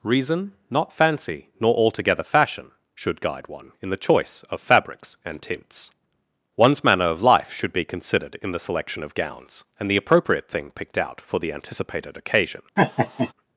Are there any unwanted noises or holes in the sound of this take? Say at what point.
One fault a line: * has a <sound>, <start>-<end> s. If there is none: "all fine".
* has a laugh, 12.8-13.3 s